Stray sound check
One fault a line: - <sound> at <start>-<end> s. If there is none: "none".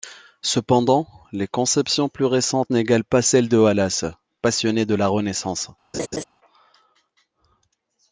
- laugh at 5.9-6.2 s